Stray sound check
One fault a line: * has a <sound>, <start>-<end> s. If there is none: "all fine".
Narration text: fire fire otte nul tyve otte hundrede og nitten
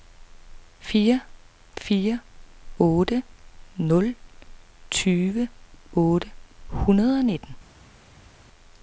all fine